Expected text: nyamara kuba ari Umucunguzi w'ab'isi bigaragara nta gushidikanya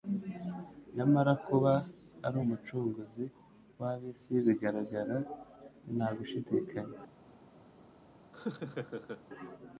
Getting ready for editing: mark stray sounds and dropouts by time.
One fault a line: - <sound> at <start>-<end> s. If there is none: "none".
- laugh at 8.3-9.2 s